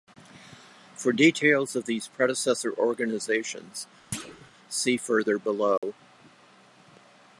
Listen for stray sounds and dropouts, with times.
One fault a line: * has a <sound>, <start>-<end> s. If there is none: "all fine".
* has a thud, 4.1-4.5 s
* has a dropout, 5.8-5.8 s